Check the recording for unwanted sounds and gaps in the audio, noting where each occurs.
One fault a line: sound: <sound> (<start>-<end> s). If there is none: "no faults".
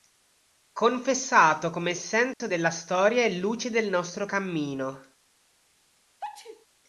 sound: dropout (2.3-2.4 s)
sound: sneeze (6.2-6.7 s)